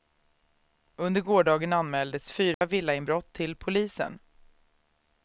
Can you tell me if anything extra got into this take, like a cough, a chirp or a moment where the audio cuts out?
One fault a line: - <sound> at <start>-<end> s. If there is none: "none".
- dropout at 2.5-2.6 s